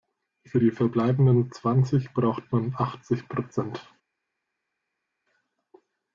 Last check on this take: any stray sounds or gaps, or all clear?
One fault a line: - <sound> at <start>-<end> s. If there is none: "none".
none